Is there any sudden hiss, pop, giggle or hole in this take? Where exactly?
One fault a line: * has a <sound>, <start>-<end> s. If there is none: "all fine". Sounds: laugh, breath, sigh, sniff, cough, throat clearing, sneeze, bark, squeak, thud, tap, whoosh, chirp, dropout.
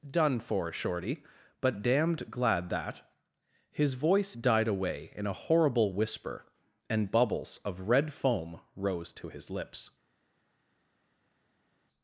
all fine